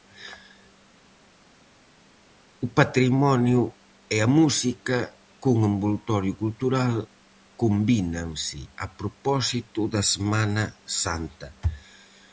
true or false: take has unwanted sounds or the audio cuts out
false